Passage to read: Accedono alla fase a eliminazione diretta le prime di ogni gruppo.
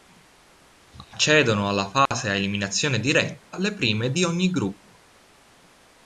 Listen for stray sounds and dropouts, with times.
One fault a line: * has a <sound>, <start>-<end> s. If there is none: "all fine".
* has a dropout, 2.1-2.1 s